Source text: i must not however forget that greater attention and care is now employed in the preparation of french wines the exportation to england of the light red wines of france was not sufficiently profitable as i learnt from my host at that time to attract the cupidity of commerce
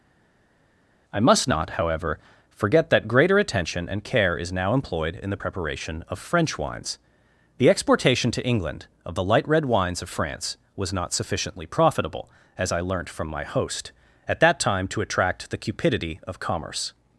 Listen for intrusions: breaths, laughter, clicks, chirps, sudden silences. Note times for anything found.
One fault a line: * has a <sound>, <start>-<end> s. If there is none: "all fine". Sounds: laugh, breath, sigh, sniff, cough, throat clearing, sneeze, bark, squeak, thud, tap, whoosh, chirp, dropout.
all fine